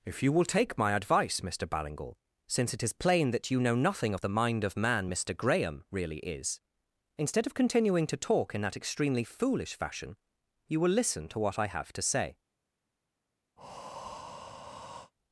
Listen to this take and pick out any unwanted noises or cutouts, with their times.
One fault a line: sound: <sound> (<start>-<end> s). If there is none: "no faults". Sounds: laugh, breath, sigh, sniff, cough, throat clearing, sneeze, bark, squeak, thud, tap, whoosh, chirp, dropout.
sound: breath (13.6-15.1 s)